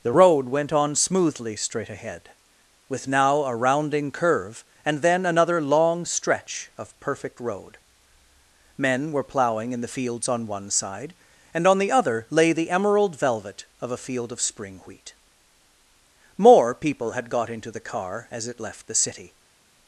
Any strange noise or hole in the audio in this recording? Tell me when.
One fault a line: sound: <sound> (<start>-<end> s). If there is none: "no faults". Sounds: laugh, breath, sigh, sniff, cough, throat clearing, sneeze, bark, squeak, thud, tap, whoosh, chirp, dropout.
no faults